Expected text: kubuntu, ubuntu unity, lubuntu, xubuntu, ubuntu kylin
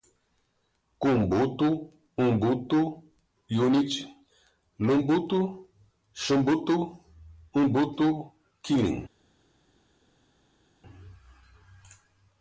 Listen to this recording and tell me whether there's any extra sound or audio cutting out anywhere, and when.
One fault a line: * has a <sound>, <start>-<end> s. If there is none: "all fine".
all fine